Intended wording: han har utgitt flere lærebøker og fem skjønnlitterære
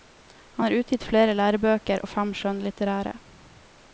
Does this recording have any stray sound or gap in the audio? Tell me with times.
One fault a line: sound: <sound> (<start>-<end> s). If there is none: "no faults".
no faults